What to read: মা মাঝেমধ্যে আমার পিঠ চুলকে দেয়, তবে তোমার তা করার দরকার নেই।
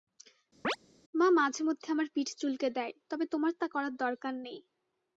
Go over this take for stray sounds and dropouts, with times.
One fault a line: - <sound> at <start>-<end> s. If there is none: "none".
- chirp at 0.6-0.8 s